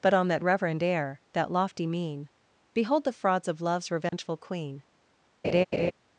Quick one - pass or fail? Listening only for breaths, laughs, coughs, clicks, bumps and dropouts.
fail